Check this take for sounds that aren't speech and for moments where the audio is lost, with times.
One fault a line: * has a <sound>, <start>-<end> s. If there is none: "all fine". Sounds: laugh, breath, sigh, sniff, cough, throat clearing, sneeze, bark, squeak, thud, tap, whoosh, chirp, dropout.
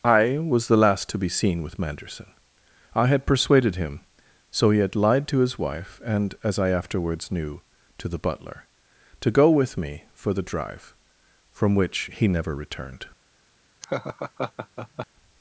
* has a laugh, 13.8-15.1 s